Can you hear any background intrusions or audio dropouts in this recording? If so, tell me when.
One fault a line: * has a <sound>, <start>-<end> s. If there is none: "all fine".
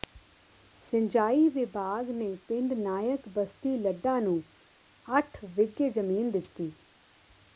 all fine